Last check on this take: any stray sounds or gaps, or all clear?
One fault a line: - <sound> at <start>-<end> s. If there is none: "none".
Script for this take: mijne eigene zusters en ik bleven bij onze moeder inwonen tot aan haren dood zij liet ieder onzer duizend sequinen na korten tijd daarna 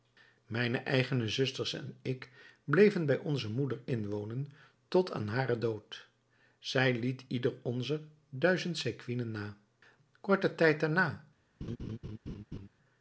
- laugh at 11.6-12.7 s